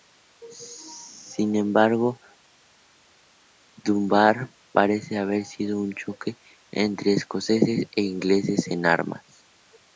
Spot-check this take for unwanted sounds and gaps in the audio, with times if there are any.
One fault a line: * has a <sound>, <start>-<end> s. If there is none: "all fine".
all fine